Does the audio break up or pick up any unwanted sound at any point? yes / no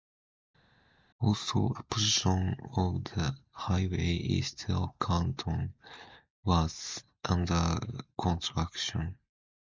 no